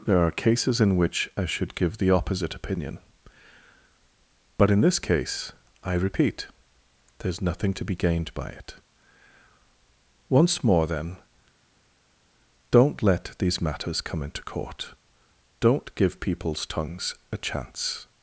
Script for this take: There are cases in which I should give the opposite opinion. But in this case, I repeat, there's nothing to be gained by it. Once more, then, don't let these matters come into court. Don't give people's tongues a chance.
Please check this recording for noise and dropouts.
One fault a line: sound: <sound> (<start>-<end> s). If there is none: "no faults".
no faults